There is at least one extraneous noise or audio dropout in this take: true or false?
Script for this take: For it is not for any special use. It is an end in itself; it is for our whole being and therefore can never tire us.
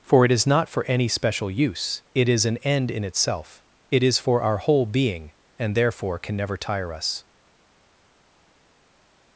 false